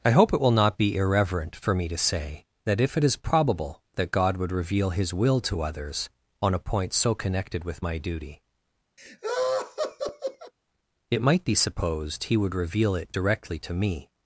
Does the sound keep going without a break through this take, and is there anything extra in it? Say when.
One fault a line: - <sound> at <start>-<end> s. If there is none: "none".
- laugh at 9.0-10.5 s